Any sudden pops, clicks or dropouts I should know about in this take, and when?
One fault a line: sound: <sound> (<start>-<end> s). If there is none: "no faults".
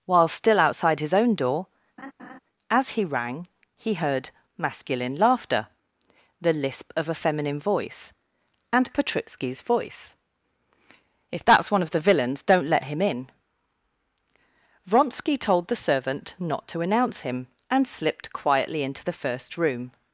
sound: laugh (2.0-2.4 s)